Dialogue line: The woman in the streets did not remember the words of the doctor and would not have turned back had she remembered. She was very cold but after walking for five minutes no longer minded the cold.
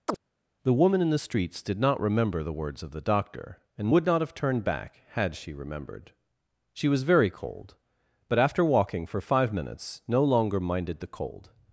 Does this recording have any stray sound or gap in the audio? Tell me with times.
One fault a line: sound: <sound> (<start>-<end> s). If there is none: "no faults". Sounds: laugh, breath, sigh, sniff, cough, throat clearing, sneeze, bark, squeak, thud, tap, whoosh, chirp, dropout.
sound: chirp (0.1-0.2 s)